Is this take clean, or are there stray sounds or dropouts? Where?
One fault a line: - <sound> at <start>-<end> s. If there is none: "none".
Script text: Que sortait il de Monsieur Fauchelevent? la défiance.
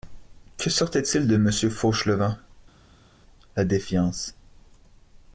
none